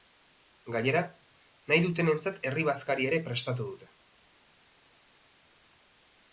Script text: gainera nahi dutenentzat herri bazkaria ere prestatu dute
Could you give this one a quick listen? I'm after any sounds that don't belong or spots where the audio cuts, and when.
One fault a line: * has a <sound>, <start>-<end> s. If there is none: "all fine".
all fine